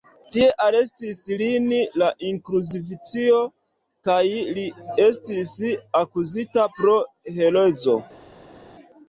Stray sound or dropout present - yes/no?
no